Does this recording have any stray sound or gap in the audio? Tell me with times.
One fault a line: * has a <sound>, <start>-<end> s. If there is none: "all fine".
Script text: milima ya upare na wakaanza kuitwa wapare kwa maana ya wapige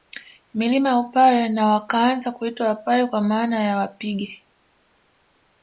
all fine